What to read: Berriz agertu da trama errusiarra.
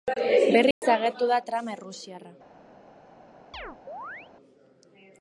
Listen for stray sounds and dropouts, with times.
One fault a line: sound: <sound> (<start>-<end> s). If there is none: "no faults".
sound: dropout (0.7-0.8 s)
sound: chirp (3.5-4.3 s)